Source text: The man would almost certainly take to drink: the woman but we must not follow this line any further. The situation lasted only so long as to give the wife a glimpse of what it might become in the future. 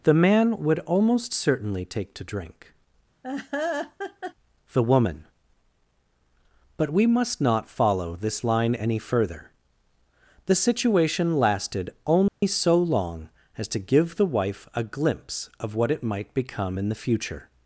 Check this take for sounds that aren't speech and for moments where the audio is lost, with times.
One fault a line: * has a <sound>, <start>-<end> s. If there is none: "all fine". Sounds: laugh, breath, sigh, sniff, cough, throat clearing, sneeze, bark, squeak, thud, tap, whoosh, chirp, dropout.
* has a laugh, 3.2-4.3 s
* has a dropout, 12.3-12.4 s